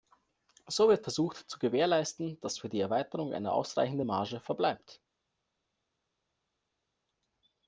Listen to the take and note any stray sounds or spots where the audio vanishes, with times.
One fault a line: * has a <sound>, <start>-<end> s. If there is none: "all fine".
all fine